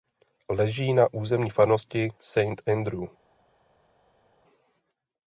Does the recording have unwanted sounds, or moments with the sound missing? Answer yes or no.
no